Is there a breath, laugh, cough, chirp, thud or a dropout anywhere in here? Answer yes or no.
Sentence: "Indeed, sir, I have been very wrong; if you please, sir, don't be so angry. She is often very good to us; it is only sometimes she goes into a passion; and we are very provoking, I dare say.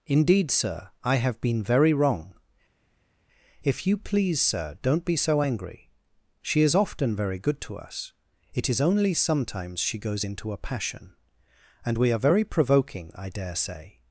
no